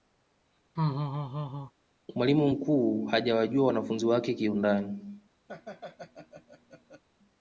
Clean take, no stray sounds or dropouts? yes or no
no